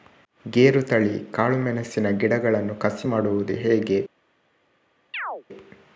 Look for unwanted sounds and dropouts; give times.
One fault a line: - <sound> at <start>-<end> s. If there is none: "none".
- chirp at 5.1-5.4 s